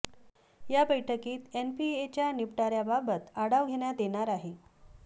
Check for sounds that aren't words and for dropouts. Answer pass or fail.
pass